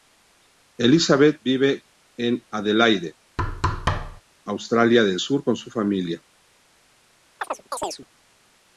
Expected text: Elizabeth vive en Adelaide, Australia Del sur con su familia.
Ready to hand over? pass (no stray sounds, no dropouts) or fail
fail